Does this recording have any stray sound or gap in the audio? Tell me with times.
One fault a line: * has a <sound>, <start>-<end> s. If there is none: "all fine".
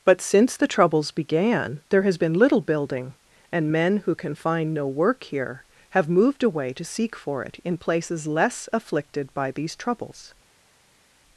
all fine